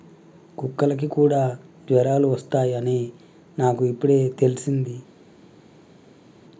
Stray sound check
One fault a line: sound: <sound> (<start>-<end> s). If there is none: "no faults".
no faults